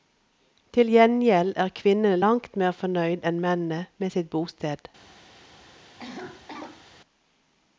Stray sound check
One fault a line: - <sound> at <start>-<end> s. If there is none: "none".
- cough at 6.0-6.9 s